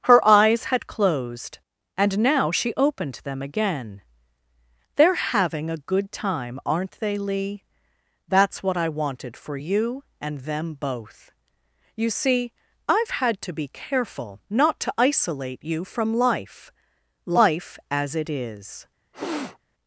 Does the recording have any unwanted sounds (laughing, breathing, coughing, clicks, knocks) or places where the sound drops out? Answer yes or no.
yes